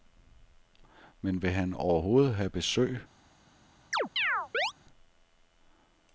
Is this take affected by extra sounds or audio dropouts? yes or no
yes